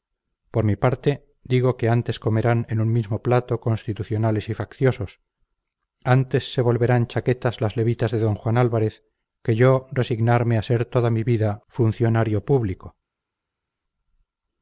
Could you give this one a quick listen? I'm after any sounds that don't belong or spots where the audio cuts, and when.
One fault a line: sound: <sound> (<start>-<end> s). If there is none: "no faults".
no faults